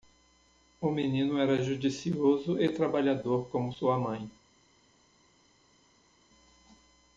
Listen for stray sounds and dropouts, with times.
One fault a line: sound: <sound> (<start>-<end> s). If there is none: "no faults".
no faults